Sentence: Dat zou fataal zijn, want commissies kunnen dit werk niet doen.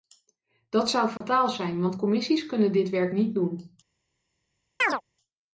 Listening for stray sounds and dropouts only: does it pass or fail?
fail